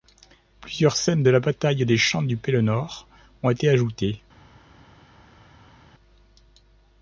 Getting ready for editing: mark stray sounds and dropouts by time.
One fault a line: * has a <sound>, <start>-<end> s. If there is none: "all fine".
all fine